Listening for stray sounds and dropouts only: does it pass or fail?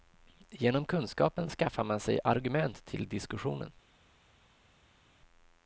pass